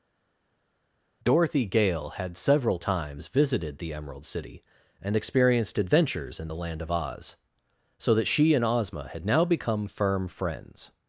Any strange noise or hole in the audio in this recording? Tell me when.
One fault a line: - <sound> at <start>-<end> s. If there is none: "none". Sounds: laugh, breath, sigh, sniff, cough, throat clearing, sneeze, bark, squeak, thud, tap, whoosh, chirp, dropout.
none